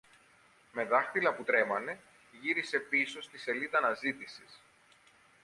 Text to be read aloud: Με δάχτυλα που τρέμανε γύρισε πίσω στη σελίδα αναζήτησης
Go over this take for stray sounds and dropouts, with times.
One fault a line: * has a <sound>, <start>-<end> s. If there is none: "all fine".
all fine